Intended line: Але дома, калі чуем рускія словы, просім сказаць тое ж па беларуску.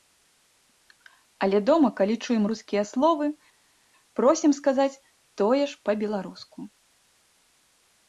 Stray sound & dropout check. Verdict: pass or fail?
pass